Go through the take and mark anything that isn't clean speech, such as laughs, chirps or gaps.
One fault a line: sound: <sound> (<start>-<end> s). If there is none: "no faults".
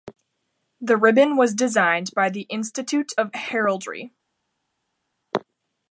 no faults